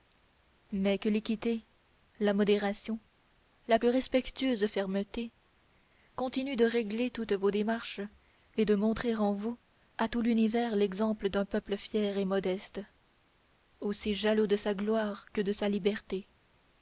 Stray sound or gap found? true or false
false